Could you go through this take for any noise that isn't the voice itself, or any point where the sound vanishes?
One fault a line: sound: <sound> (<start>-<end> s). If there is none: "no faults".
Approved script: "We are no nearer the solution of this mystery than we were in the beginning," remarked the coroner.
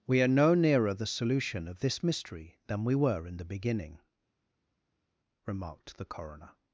no faults